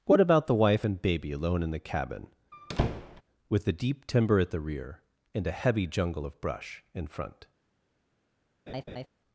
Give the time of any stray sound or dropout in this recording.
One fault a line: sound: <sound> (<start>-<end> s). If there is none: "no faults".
sound: squeak (2.5-3.2 s)
sound: laugh (8.7-9.1 s)